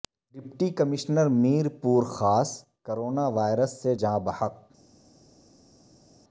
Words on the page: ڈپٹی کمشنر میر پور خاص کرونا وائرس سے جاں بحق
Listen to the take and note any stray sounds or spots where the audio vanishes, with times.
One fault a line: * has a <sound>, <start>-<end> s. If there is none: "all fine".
all fine